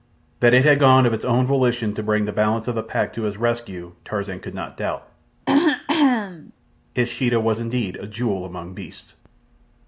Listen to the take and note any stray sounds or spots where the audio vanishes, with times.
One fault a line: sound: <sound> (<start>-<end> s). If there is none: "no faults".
sound: throat clearing (5.5-6.5 s)